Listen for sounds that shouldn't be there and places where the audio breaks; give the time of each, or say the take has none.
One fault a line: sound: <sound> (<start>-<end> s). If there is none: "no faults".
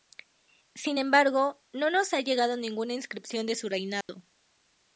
sound: dropout (4.0-4.1 s)